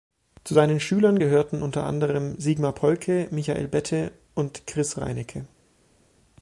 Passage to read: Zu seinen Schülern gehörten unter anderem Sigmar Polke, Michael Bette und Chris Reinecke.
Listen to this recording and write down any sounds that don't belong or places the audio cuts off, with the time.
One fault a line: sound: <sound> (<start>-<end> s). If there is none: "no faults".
no faults